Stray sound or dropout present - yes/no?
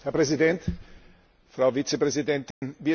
yes